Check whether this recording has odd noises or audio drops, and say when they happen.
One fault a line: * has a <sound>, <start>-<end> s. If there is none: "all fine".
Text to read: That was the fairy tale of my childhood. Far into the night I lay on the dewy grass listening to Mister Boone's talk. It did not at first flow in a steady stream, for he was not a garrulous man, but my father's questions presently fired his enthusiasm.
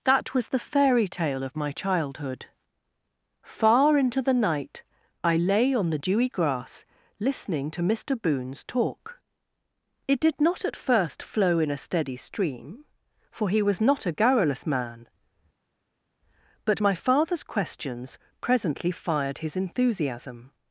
all fine